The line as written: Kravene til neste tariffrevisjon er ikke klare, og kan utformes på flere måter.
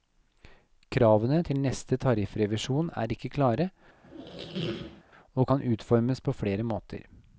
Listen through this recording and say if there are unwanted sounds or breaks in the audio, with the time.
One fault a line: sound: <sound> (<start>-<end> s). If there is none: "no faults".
sound: squeak (4.0-5.0 s)